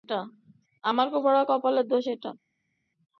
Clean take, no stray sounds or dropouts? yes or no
yes